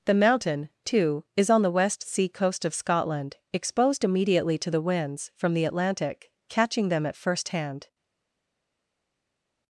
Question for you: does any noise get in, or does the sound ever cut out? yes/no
no